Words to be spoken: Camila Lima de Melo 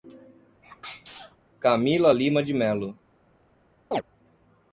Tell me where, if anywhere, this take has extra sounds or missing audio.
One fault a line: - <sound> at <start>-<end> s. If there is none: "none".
- sneeze at 0.6-1.4 s
- chirp at 3.9-4.0 s